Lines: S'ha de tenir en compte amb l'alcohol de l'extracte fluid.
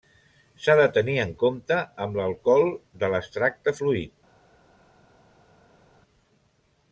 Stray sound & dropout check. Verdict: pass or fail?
pass